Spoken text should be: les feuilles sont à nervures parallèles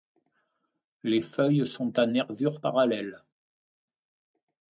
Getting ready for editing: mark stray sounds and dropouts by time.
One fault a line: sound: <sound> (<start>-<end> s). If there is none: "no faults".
no faults